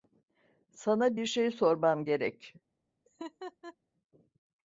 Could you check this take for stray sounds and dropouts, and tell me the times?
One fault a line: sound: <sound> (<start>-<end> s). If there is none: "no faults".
sound: laugh (3.0-3.8 s)